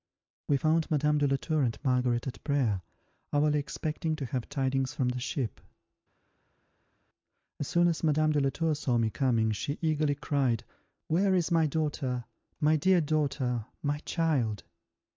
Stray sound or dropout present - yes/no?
no